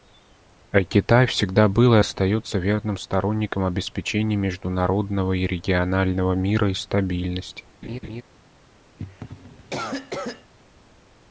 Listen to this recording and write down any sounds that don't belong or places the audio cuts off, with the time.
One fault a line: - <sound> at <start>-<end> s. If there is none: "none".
- laugh at 7.8-8.2 s
- cough at 9.0-10.5 s